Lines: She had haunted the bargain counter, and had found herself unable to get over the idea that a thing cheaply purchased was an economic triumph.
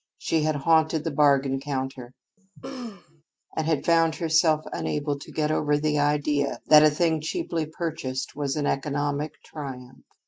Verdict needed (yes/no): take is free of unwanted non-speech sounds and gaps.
no